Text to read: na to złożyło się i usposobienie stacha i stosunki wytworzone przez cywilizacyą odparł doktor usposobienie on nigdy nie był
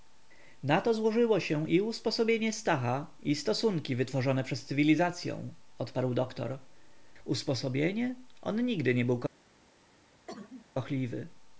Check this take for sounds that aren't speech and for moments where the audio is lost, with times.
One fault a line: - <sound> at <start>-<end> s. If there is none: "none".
- cough at 10.3-10.7 s